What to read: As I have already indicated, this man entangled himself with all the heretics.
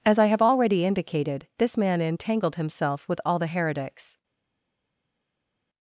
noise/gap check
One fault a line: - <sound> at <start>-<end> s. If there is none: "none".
none